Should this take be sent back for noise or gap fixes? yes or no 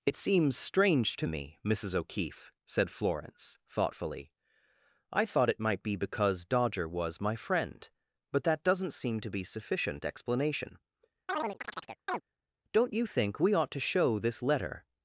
yes